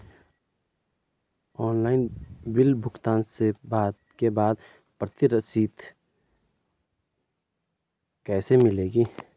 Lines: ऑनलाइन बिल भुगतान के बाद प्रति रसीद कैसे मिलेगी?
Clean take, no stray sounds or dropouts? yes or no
yes